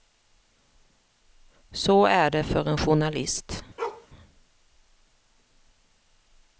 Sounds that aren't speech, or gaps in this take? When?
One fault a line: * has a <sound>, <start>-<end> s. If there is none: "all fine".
* has a bark, 3.8-4.1 s